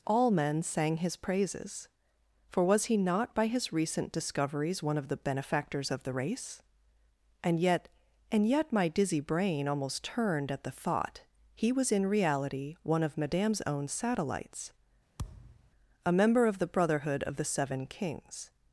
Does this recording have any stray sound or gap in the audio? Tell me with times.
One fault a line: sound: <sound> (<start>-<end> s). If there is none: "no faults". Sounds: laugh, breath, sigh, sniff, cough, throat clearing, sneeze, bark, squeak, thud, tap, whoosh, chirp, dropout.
sound: thud (15.2-15.7 s)